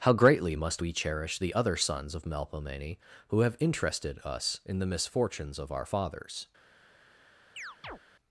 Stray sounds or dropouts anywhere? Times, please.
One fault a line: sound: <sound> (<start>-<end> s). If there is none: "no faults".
sound: chirp (7.6-8.0 s)